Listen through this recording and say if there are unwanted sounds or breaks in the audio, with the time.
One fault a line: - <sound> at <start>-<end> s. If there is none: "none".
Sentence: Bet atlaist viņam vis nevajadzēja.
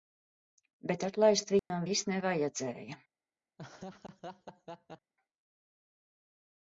- dropout at 1.6-1.7 s
- laugh at 3.6-5.1 s